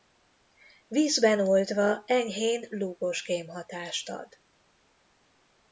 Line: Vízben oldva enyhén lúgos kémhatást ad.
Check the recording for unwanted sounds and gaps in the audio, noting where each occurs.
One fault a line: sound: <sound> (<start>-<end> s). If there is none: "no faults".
no faults